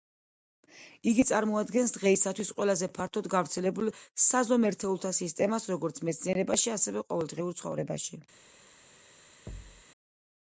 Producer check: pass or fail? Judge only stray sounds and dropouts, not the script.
fail